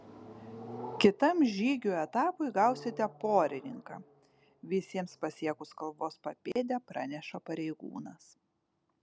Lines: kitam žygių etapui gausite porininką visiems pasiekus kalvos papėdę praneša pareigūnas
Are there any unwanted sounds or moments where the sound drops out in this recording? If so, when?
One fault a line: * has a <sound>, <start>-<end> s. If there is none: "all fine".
* has a dropout, 6.5-6.6 s